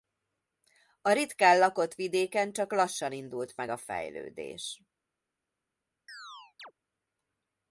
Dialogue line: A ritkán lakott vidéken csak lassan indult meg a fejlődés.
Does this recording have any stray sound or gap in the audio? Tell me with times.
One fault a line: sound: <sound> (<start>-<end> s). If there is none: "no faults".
sound: chirp (6.1-6.7 s)